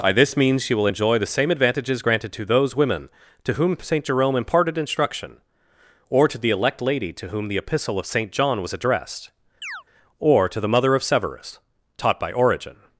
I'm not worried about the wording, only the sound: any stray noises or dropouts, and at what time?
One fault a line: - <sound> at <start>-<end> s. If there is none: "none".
- chirp at 9.6-9.8 s